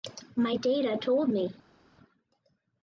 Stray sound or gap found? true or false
false